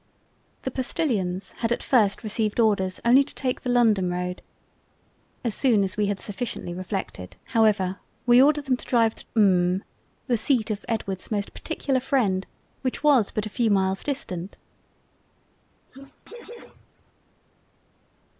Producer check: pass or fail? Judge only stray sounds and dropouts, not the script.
fail